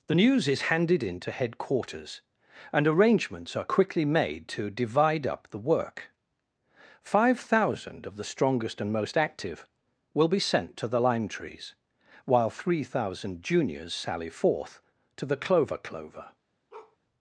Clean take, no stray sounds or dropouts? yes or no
no